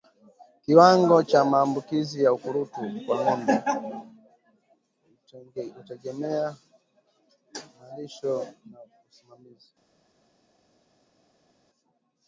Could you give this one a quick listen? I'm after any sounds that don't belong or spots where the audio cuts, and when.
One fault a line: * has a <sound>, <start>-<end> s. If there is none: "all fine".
all fine